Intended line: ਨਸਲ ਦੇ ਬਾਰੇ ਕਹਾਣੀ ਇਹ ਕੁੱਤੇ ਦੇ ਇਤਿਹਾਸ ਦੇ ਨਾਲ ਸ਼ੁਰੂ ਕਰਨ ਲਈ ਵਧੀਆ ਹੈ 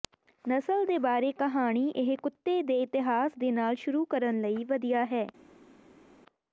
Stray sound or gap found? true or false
false